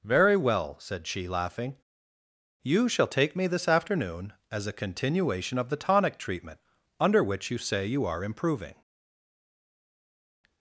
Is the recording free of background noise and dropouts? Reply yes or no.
yes